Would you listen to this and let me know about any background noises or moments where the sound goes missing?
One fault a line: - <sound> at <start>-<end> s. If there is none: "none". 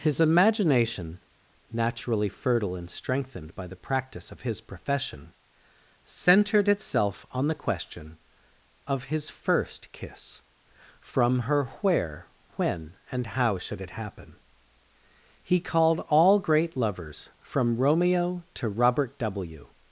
none